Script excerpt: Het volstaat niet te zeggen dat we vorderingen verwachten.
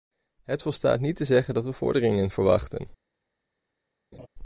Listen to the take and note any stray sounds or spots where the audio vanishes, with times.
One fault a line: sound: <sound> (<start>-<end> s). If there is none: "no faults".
sound: laugh (4.1-4.3 s)